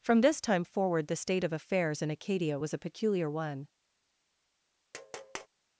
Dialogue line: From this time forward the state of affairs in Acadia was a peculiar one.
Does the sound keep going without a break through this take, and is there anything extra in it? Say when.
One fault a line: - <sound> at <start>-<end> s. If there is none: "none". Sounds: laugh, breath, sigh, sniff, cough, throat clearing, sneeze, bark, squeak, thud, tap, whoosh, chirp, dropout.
- tap at 4.9-5.5 s